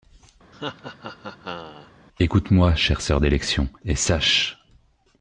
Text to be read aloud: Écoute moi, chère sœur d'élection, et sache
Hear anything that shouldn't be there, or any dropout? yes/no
yes